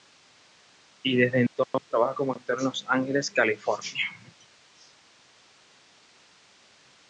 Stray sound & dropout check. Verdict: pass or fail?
fail